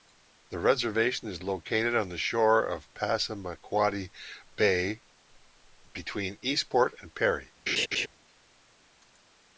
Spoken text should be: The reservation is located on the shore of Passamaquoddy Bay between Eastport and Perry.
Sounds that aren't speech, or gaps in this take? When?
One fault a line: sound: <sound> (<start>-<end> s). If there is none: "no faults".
sound: laugh (7.7-8.1 s)